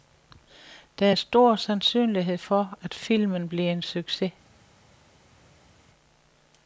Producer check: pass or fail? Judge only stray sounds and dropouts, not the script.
pass